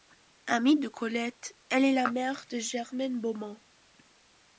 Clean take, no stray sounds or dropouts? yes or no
yes